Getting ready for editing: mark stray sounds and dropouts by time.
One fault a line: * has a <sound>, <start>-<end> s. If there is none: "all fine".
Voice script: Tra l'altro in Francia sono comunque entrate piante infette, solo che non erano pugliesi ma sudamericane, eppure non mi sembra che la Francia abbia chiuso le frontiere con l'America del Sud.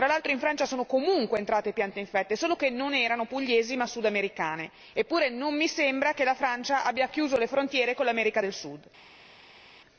all fine